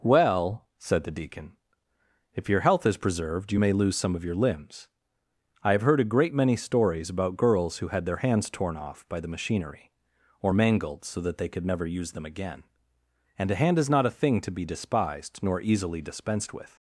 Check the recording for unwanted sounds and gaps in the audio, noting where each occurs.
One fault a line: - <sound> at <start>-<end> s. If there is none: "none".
none